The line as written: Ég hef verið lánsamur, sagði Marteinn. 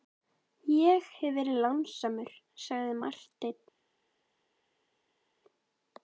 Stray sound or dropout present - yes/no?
no